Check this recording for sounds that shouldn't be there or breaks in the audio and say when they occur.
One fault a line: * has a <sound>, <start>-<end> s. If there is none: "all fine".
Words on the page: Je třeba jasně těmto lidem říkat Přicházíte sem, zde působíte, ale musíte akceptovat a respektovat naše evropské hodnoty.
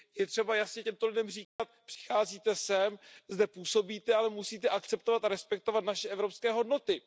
* has a dropout, 1.4-1.6 s